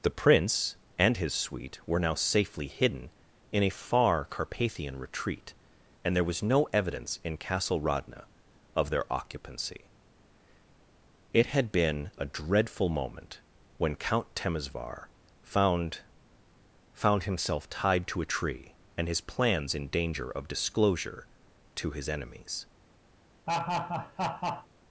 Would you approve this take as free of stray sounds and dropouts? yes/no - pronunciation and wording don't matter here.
no